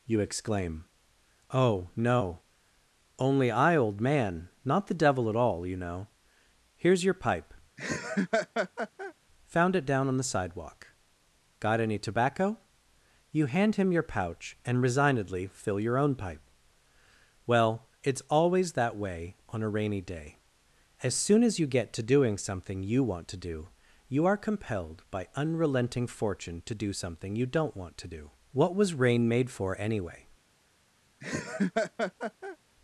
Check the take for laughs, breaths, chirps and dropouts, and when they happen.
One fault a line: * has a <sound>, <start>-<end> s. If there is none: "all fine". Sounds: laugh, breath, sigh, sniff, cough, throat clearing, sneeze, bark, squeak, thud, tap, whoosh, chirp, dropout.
* has a laugh, 7.8-9.1 s
* has a laugh, 31.2-32.6 s